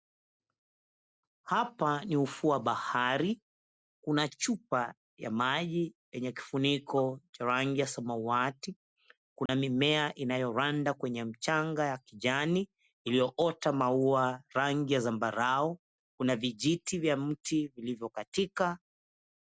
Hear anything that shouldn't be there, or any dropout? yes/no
yes